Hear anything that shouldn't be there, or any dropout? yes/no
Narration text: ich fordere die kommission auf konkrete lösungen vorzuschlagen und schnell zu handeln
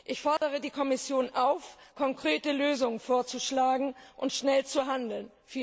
yes